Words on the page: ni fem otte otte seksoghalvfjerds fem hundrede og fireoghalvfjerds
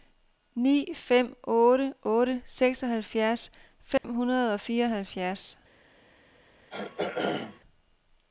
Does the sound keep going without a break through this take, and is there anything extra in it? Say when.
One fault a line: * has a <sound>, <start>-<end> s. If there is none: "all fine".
* has a dropout, 4.0-4.0 s
* has a throat clearing, 6.7-7.6 s